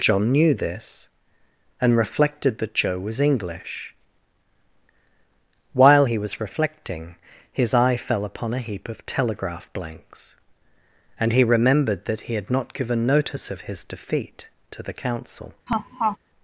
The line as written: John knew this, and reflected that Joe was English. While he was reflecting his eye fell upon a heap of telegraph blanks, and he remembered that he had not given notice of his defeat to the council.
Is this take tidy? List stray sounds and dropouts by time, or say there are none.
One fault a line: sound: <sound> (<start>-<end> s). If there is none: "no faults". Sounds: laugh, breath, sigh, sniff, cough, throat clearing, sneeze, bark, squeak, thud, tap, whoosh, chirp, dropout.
sound: laugh (15.7-16.2 s)